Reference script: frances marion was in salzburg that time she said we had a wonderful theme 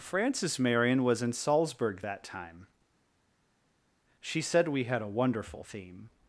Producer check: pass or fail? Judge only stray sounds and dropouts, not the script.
pass